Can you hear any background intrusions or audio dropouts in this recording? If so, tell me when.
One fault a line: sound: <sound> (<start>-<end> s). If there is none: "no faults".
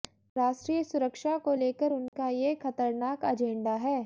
sound: dropout (2.1-2.1 s)